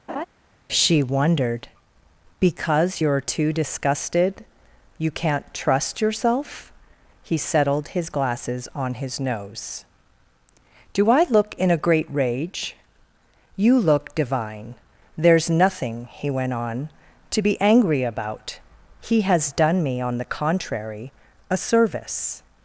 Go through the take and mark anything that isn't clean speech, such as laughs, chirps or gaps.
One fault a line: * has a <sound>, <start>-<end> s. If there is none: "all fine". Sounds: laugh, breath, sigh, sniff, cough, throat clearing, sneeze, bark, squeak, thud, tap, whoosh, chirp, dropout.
* has a laugh, 0.1-0.3 s